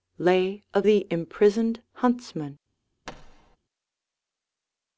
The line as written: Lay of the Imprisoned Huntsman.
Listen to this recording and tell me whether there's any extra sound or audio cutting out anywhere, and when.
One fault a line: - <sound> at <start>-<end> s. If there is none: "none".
- thud at 3.1-3.6 s